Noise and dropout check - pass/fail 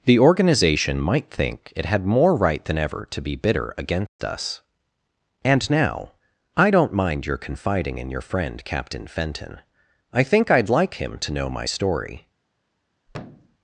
fail